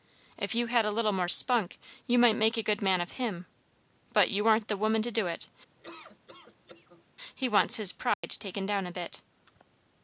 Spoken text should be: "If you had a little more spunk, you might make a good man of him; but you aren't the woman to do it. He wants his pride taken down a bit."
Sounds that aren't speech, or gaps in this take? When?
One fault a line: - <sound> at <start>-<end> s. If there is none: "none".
- laugh at 5.8-7.0 s
- dropout at 8.1-8.2 s